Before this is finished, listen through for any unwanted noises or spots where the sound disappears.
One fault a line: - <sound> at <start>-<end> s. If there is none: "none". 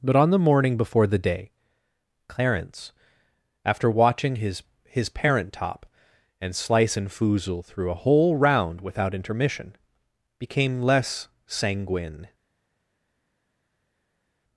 none